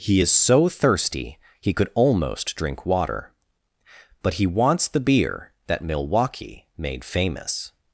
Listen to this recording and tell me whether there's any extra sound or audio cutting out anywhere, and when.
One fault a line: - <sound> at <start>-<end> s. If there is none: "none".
none